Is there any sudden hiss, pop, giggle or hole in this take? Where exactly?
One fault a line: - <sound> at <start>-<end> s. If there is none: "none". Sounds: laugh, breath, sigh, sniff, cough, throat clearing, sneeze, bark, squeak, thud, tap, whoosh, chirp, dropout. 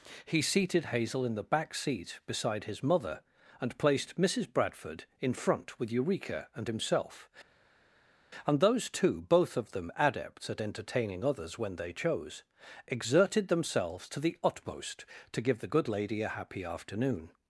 none